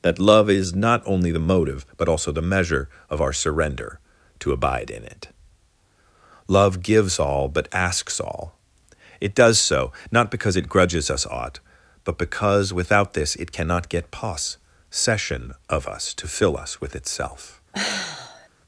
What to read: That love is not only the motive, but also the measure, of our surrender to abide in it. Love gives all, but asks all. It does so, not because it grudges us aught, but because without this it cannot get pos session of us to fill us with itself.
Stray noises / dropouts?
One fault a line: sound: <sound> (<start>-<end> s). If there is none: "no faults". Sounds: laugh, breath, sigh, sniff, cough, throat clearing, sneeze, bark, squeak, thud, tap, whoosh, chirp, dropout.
sound: sigh (17.7-18.5 s)